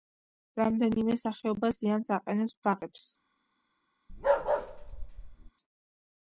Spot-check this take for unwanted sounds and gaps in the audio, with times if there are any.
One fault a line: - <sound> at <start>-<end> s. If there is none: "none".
- bark at 4.1-5.5 s